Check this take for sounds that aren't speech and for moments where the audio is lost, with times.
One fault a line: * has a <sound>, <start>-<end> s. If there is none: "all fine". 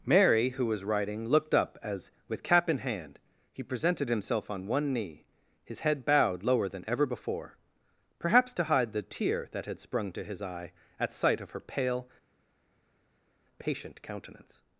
all fine